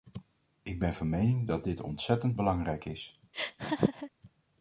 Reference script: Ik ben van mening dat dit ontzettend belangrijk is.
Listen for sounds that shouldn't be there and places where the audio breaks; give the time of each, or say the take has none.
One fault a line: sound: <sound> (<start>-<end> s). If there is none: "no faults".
sound: laugh (3.3-4.1 s)